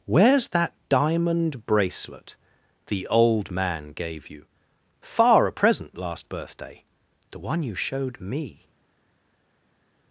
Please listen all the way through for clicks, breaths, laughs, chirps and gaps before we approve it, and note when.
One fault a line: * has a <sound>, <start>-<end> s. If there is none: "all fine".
all fine